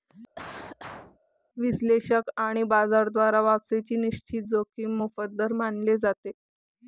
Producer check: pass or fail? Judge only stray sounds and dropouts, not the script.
fail